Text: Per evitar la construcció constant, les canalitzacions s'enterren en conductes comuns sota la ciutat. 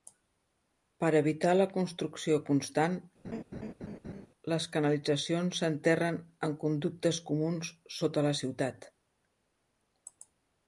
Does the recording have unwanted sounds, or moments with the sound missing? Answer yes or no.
yes